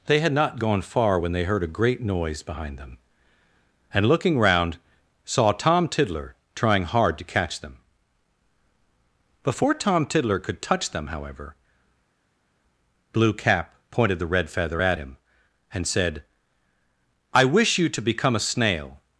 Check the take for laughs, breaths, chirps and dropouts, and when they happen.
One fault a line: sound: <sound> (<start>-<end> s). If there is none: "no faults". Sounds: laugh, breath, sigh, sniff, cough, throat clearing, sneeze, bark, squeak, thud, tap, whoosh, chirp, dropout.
no faults